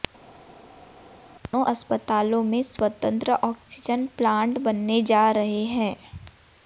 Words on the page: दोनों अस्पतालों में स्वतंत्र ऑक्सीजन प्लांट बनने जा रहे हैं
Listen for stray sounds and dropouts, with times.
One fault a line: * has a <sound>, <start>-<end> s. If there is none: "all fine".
all fine